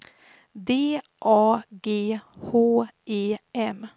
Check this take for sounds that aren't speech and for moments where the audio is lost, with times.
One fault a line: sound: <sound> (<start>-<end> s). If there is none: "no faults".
no faults